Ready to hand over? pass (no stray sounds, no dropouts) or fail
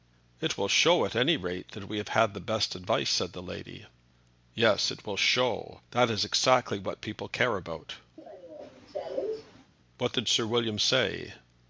fail